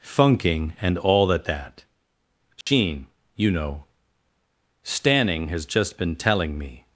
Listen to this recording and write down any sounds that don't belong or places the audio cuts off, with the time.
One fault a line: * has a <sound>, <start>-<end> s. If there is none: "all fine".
* has a dropout, 2.6-2.7 s